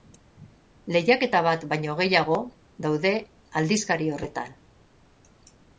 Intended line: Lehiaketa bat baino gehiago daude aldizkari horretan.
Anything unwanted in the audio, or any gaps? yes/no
no